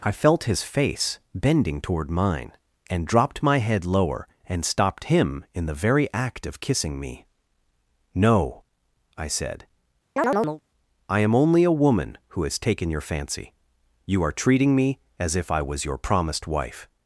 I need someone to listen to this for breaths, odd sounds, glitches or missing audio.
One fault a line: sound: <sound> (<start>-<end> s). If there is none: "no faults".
sound: chirp (10.2-10.6 s)